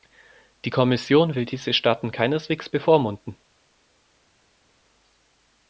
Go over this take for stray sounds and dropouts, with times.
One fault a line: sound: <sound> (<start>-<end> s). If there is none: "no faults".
no faults